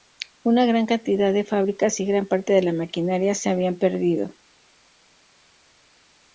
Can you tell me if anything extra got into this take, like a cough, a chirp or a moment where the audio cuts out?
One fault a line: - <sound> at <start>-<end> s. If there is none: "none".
none